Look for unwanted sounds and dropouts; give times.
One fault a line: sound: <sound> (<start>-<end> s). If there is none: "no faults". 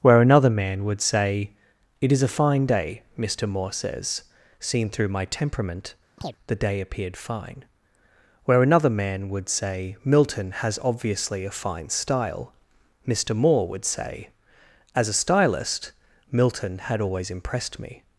sound: chirp (6.2-6.4 s)